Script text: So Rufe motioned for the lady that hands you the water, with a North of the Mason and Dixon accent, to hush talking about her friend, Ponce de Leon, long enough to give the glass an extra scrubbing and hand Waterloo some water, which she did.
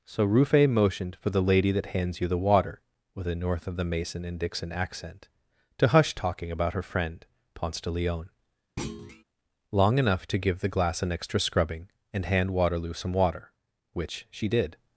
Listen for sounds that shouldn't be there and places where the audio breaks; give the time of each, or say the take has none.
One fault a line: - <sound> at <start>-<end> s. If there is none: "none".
- thud at 8.8-9.2 s